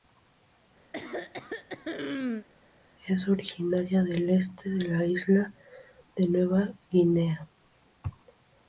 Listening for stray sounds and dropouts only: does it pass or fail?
fail